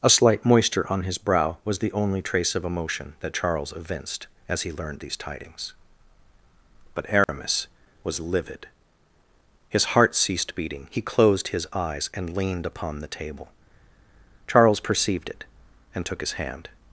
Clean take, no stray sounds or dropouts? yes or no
no